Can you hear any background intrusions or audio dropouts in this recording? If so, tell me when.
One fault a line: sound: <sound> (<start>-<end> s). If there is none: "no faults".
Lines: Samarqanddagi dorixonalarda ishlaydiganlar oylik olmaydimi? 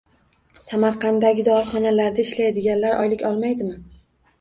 no faults